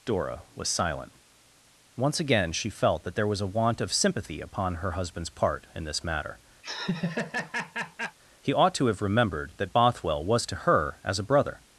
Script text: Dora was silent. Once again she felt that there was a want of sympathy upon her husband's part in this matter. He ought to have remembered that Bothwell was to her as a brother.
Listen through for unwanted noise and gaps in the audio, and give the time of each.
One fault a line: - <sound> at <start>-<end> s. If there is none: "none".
- laugh at 6.6-8.2 s